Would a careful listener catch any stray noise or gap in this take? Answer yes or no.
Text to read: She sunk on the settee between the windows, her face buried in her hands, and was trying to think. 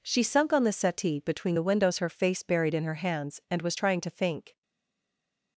no